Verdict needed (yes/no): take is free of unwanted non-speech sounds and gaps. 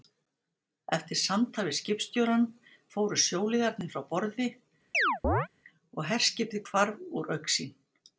no